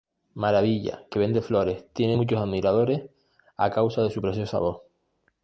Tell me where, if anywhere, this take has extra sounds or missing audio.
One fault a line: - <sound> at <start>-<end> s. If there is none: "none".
none